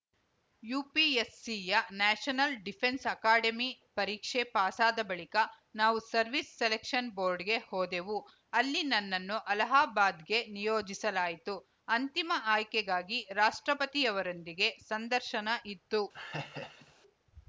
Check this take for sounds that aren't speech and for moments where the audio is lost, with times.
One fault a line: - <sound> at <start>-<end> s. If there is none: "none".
- laugh at 16.1-16.9 s